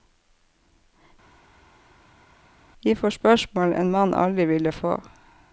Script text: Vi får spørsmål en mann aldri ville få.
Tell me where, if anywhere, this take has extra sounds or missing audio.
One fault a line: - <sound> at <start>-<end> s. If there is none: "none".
none